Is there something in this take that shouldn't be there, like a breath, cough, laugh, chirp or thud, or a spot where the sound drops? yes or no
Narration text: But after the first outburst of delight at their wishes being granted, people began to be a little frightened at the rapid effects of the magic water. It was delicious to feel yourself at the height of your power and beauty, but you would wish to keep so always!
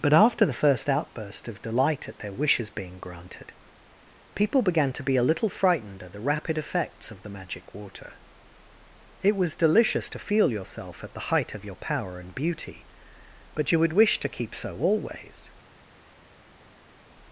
no